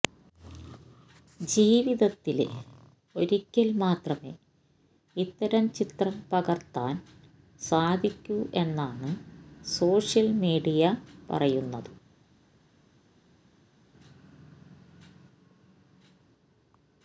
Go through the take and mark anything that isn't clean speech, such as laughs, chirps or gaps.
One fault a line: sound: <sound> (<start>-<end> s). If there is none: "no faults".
no faults